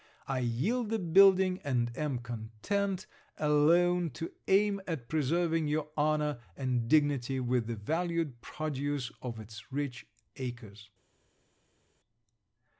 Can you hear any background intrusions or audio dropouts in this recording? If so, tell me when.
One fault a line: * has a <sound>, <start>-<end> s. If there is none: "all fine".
all fine